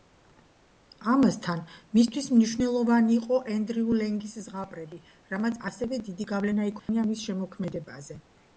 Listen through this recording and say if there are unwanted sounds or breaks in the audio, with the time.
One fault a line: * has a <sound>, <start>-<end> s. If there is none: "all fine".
* has a dropout, 6.8-6.9 s